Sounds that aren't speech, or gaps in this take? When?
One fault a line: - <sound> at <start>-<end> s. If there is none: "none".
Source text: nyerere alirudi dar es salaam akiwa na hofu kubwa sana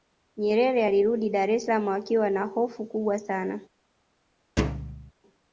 - thud at 4.6-5.1 s